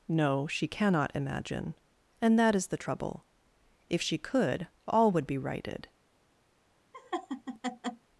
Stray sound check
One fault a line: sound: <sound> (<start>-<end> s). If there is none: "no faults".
sound: laugh (6.9-8.1 s)